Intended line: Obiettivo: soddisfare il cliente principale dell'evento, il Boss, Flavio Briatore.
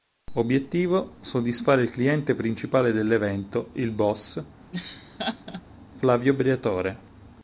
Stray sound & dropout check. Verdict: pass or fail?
fail